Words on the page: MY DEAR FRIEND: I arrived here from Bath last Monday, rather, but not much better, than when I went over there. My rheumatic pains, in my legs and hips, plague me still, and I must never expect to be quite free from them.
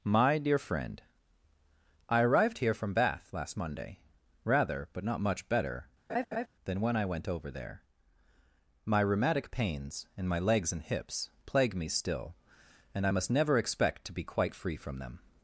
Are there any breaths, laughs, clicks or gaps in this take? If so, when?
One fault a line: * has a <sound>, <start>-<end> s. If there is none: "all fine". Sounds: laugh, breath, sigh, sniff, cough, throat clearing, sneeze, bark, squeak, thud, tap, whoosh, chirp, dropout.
* has a laugh, 6.1-6.5 s